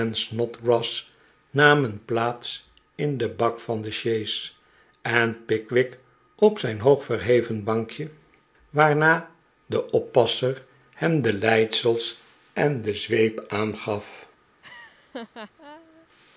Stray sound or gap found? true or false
true